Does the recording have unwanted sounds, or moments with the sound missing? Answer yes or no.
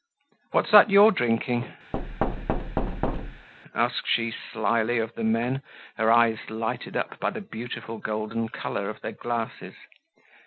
yes